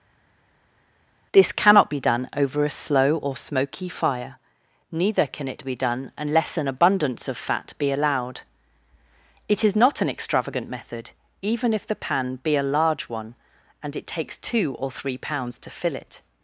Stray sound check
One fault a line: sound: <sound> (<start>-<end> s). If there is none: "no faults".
no faults